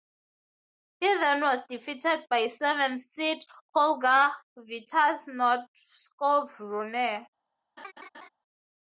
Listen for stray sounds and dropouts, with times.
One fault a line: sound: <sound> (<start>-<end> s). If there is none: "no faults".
sound: laugh (7.8-8.3 s)